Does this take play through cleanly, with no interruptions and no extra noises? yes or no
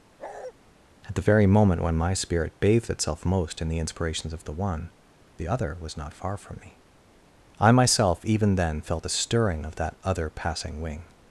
no